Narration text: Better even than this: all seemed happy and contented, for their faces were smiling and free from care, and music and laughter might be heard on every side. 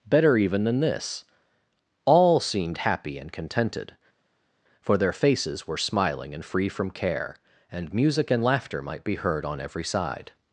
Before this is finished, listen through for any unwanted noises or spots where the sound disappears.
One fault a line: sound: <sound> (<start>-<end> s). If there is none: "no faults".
no faults